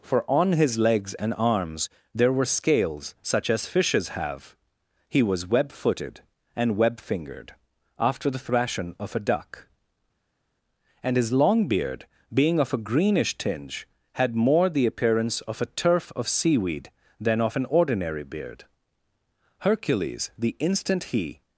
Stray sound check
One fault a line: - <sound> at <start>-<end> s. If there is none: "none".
none